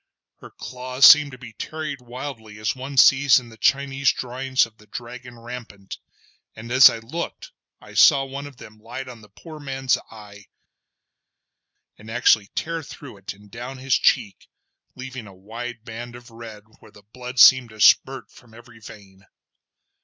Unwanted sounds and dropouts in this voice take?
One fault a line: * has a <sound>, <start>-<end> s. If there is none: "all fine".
all fine